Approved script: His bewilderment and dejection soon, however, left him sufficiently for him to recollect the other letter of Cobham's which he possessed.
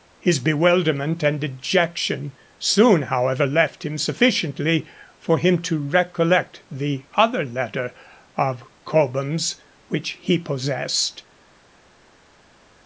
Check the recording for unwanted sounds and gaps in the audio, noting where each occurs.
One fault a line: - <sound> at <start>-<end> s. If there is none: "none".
none